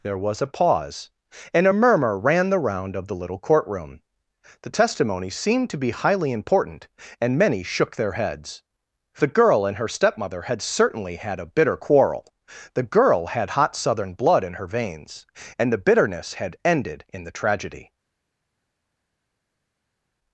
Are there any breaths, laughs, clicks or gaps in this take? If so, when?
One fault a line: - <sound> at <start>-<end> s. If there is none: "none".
none